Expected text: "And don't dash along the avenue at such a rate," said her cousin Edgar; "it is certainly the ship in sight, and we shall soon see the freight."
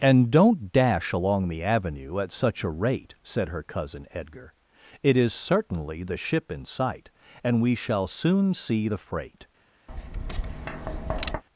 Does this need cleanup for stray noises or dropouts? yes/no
yes